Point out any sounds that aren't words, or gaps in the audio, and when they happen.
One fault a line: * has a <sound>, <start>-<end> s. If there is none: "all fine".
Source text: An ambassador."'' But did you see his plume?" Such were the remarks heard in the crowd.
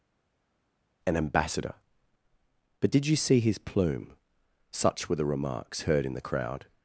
all fine